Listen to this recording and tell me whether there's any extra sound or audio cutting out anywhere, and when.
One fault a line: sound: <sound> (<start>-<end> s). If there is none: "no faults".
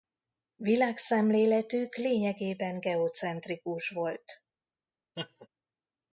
sound: laugh (5.1-5.5 s)